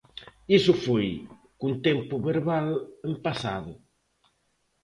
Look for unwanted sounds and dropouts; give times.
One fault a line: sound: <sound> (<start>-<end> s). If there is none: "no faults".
no faults